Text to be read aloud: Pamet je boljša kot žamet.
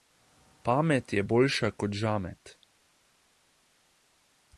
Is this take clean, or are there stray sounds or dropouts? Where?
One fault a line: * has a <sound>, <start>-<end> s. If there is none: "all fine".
all fine